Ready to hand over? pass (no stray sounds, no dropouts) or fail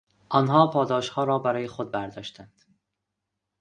pass